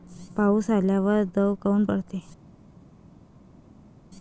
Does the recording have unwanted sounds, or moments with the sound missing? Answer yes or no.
no